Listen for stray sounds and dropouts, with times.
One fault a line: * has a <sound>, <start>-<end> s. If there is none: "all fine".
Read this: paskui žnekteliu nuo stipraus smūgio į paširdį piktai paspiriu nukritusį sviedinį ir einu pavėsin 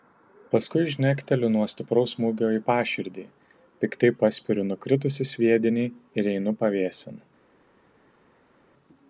all fine